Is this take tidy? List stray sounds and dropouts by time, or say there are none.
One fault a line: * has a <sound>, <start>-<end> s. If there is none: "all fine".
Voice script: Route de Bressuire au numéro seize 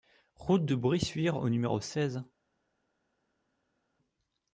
all fine